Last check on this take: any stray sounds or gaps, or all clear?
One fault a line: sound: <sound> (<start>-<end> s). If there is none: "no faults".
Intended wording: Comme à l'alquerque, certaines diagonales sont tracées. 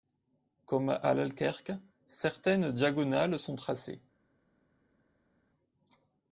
no faults